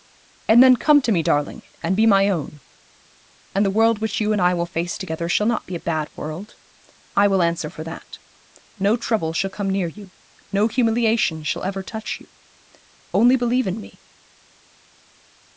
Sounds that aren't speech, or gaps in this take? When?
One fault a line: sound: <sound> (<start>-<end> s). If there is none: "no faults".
no faults